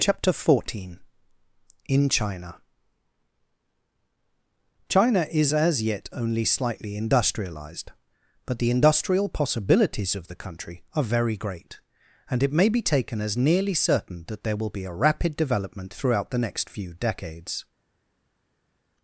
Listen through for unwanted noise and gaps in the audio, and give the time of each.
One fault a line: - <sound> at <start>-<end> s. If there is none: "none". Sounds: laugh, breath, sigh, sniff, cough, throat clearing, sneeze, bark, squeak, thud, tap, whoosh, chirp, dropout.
none